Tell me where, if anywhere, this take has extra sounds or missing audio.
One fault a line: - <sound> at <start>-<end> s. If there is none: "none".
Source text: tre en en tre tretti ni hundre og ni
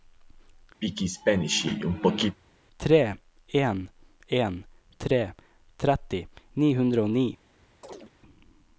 - throat clearing at 0.8-2.4 s
- chirp at 7.8-8.1 s